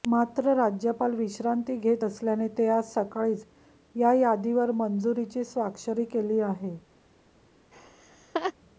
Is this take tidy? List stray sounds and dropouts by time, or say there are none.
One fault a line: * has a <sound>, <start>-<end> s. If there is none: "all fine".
* has a laugh, 7.7-8.5 s